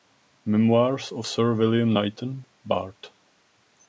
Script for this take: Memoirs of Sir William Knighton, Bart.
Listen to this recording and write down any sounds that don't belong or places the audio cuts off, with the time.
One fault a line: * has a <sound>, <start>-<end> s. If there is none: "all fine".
all fine